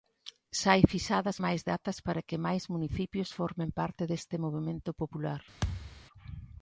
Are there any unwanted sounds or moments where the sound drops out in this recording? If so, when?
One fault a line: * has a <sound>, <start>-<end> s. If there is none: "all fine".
* has a thud, 5.6-6.1 s